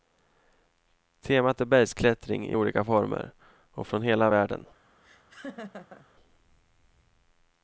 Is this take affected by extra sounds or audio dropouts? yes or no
yes